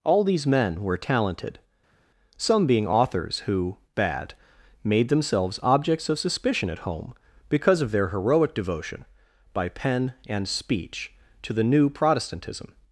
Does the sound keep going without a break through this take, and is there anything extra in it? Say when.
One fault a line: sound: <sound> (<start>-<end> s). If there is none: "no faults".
no faults